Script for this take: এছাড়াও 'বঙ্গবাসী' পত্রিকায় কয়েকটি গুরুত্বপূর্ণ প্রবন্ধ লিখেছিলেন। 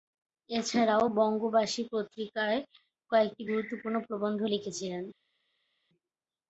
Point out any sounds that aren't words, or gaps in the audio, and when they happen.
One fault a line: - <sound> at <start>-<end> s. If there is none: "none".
none